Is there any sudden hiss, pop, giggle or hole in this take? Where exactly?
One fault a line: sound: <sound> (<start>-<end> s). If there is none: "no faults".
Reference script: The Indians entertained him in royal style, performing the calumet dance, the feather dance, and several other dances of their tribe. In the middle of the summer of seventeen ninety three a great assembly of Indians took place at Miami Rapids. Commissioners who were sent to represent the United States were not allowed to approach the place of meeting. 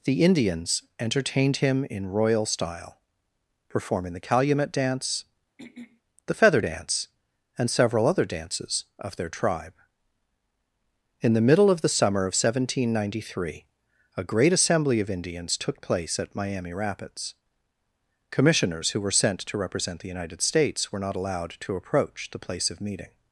sound: throat clearing (5.6-6.0 s)